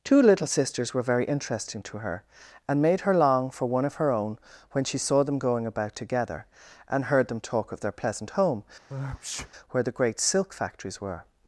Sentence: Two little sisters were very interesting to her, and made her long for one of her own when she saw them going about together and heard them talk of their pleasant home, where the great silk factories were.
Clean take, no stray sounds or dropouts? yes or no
no